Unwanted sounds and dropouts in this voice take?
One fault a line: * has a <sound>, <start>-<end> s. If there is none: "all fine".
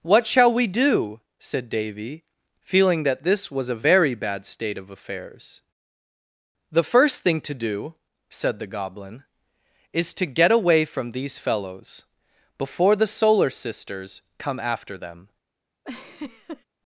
* has a laugh, 15.8-16.6 s